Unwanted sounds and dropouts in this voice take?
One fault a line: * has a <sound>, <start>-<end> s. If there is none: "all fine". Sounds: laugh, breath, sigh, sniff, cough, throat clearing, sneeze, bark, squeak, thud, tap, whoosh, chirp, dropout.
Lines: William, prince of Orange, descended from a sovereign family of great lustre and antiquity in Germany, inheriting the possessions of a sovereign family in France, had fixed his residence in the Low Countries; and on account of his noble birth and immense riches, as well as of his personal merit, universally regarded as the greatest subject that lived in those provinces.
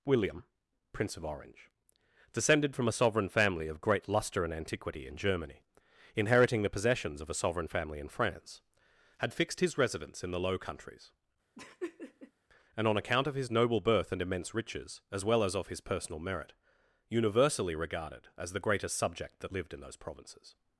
* has a laugh, 11.6-12.3 s